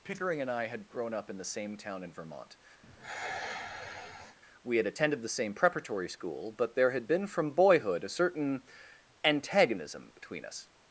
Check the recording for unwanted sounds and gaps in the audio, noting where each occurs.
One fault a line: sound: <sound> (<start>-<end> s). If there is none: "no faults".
sound: sigh (2.8-4.4 s)